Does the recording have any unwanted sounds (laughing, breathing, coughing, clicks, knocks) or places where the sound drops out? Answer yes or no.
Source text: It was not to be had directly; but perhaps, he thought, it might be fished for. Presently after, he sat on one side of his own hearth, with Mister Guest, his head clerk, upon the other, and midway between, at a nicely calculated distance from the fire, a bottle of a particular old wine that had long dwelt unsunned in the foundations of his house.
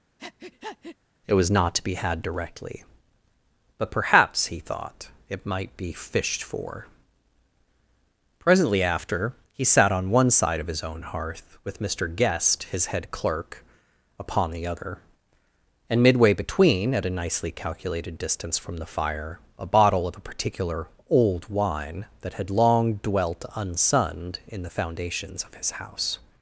yes